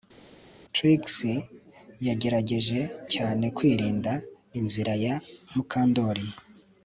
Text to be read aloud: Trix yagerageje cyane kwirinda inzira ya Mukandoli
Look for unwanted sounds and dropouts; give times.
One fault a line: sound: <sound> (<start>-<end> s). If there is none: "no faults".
no faults